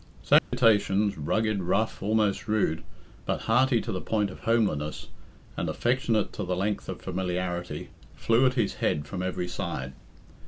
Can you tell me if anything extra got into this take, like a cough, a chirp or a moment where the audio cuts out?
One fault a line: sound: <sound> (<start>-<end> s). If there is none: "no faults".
sound: dropout (0.4-0.5 s)